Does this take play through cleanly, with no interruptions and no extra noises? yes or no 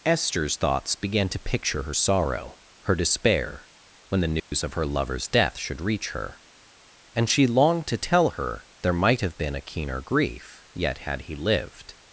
no